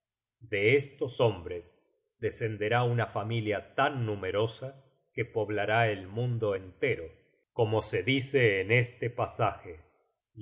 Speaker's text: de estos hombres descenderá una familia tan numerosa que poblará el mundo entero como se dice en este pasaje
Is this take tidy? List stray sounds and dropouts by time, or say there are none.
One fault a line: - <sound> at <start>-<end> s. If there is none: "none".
none